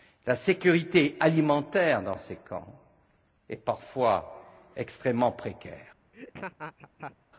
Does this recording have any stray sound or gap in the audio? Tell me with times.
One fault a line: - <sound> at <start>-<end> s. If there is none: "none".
- laugh at 6.1-7.2 s